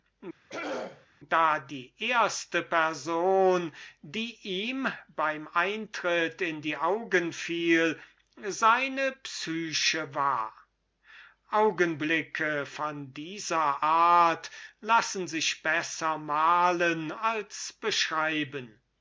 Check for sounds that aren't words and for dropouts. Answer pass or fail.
fail